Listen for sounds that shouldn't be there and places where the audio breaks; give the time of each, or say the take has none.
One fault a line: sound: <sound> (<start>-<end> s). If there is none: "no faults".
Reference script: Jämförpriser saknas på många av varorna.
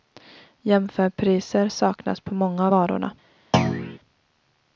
sound: thud (3.5-4.0 s)